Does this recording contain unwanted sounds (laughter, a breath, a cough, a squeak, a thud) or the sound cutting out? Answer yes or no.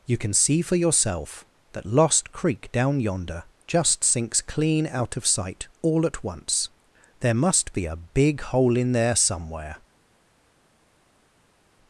no